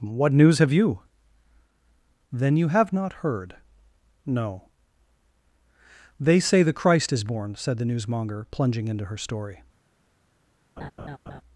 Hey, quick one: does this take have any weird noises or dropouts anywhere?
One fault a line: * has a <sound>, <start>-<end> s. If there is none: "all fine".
* has a laugh, 10.8-11.4 s